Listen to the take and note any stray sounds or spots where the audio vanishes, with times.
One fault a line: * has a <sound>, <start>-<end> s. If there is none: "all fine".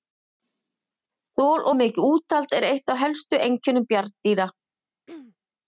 * has a throat clearing, 5.1-5.4 s